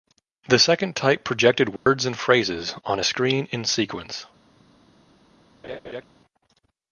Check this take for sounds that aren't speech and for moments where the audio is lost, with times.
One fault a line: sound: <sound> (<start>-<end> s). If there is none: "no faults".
sound: dropout (1.8-1.9 s)
sound: laugh (5.6-6.0 s)